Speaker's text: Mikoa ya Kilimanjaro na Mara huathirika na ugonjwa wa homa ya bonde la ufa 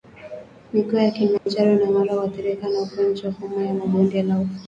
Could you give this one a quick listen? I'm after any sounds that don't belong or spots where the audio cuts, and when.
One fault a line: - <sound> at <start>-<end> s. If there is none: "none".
- dropout at 1.4-1.5 s